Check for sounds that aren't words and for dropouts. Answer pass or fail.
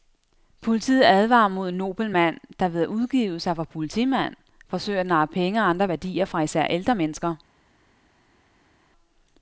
pass